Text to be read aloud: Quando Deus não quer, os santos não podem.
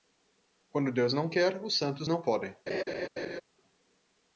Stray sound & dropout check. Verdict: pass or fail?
fail